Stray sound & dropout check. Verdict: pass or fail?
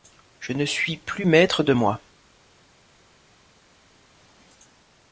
pass